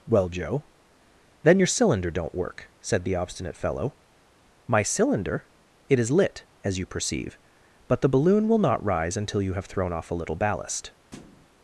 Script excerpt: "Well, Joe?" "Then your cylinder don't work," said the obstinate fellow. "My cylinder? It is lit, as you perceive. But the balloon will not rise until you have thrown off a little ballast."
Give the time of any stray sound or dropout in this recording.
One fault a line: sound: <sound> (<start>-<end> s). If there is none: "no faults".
sound: thud (11.1-11.5 s)